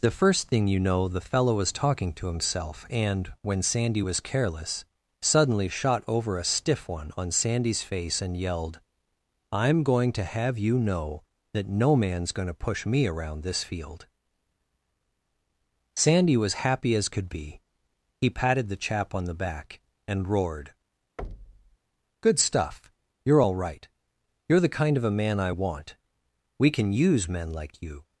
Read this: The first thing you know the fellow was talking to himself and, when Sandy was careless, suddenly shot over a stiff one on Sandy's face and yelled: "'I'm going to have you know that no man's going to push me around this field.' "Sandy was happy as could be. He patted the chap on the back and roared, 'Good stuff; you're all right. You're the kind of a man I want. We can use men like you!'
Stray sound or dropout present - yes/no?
yes